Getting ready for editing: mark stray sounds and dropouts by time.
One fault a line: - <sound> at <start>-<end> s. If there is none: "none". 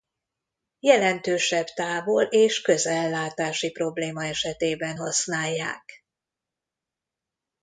none